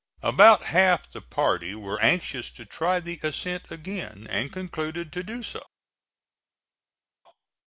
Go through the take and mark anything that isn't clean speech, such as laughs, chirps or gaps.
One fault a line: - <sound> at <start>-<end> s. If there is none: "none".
none